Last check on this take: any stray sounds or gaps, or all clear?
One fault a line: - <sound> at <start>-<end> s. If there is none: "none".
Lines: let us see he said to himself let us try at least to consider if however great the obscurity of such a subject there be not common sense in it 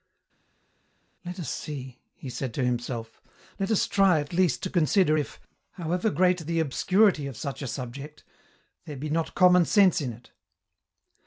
none